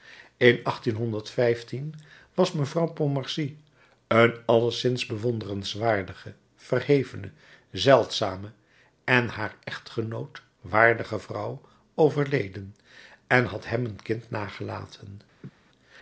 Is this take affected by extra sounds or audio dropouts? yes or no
yes